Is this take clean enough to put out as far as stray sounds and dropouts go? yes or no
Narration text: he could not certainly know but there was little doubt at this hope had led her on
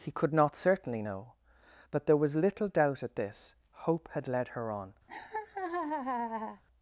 no